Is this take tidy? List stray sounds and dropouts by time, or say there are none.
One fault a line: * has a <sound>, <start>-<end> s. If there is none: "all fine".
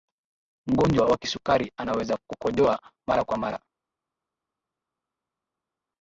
all fine